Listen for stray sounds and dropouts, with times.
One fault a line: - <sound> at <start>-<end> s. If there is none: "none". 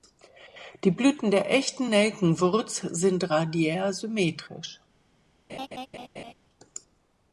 - laugh at 5.5-6.3 s